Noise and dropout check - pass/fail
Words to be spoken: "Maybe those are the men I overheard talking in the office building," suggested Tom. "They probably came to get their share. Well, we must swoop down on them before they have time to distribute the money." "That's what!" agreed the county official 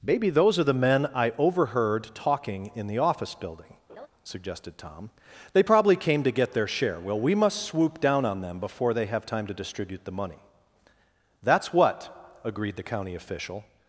fail